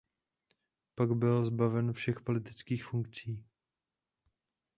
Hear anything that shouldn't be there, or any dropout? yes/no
no